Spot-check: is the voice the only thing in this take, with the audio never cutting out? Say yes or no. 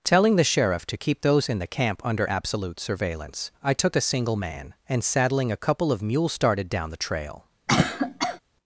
no